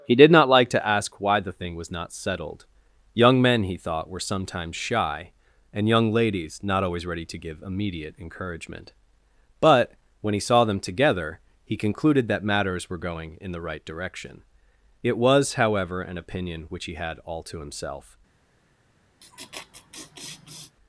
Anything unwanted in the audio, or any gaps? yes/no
yes